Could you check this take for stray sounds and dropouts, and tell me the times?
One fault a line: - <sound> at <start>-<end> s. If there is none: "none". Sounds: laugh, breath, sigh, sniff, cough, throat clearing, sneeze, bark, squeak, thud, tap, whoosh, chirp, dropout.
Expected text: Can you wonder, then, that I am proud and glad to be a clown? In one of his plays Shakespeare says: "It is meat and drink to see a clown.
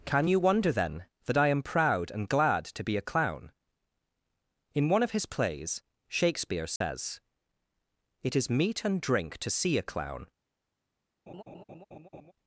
- dropout at 6.8-6.8 s
- laugh at 11.3-12.3 s